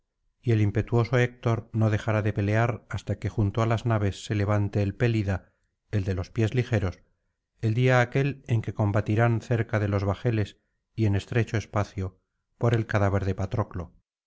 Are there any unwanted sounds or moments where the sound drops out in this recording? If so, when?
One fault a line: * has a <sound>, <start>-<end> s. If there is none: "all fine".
all fine